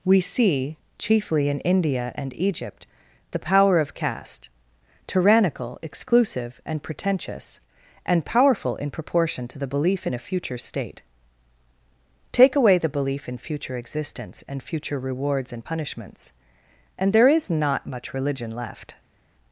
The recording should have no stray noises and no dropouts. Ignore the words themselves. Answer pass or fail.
pass